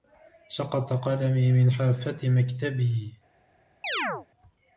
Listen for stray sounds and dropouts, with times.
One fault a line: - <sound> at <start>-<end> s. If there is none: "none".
- chirp at 3.8-4.3 s